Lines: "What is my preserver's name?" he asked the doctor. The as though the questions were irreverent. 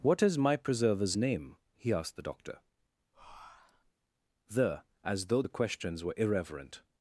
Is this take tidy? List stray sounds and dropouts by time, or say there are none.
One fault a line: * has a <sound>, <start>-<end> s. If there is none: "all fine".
* has a breath, 3.1-3.9 s